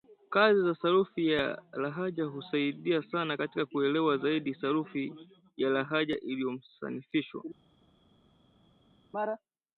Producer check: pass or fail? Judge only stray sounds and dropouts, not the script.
pass